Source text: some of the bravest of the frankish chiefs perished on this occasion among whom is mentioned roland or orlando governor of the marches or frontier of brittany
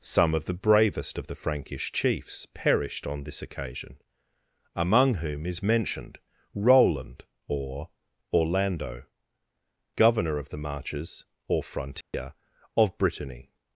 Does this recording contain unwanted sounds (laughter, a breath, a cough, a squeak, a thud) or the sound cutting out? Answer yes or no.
yes